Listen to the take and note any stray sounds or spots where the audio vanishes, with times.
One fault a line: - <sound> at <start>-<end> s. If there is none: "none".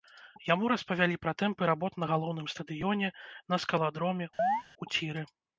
- chirp at 4.4-4.6 s